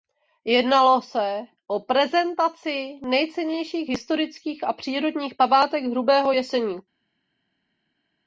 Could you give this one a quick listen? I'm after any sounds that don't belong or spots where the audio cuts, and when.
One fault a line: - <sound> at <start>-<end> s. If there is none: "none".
none